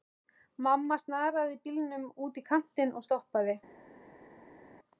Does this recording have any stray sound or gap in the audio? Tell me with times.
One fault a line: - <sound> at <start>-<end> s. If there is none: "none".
none